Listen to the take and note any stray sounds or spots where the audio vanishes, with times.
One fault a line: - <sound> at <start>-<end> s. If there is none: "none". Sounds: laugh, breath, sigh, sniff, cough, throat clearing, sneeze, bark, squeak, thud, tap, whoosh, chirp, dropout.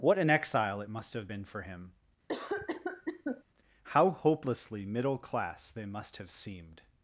- cough at 2.3-3.4 s